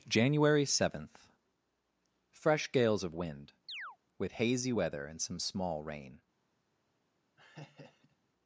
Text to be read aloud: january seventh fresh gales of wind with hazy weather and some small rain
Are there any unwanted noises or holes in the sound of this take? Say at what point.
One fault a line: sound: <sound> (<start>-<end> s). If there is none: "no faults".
sound: chirp (3.7-4.0 s)
sound: laugh (7.4-8.2 s)